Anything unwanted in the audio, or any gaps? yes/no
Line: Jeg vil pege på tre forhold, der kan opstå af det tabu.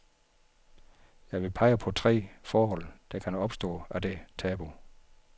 no